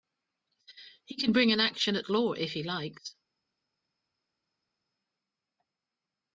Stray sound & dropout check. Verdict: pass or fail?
pass